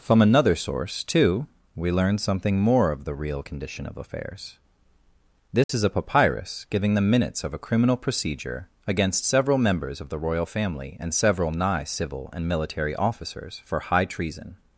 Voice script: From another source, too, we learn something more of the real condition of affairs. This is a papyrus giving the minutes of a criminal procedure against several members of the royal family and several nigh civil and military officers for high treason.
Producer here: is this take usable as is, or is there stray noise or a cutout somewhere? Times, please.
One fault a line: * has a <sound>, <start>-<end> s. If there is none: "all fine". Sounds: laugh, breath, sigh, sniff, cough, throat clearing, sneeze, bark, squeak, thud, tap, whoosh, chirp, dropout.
* has a dropout, 5.6-5.7 s